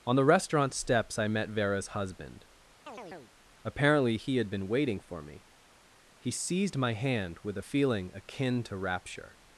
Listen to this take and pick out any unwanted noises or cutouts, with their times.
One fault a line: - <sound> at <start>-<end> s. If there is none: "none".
- chirp at 2.9-3.3 s